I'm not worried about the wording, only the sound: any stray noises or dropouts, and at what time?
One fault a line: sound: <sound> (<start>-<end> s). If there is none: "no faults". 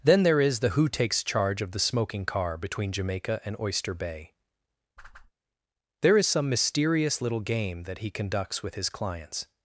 sound: whoosh (5.0-5.3 s)